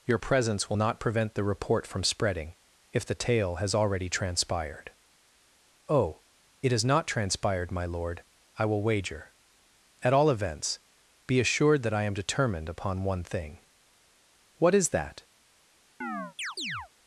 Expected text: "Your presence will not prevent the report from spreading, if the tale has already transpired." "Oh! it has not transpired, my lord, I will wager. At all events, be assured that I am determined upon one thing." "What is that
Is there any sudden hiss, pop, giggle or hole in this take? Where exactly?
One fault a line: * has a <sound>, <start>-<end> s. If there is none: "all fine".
* has a chirp, 16.0-16.9 s